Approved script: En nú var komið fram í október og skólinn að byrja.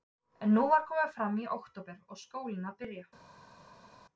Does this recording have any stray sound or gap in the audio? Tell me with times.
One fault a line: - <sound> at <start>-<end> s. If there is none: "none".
none